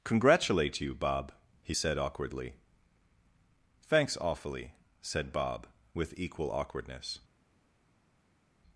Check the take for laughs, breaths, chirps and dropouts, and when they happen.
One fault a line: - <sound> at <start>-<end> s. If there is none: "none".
none